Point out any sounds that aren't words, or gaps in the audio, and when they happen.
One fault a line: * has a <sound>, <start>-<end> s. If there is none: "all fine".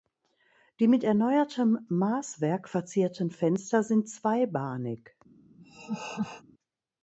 * has a laugh, 5.6-6.4 s